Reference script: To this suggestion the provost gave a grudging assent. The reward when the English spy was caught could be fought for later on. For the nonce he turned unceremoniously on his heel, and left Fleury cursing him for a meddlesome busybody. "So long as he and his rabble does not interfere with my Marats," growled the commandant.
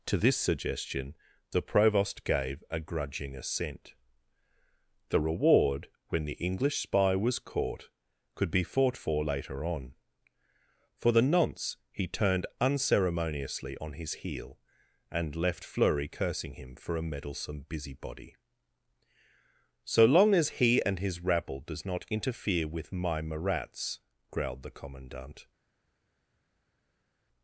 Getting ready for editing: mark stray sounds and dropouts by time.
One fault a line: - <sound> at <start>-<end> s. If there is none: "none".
none